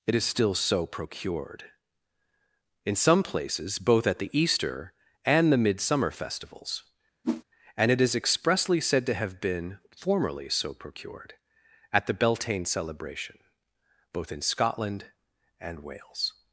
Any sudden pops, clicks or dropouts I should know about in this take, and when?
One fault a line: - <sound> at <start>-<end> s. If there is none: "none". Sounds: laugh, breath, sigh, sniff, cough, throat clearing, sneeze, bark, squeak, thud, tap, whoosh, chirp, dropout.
- whoosh at 7.2-7.4 s